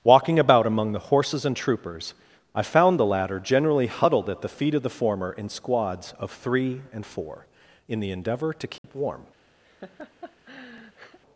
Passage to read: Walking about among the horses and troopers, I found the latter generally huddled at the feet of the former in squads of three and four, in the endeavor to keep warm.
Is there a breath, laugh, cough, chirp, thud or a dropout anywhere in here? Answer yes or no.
yes